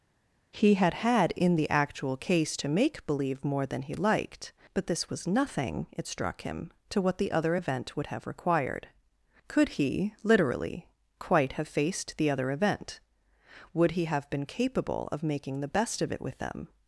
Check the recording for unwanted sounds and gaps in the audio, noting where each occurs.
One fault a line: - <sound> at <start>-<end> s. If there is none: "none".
none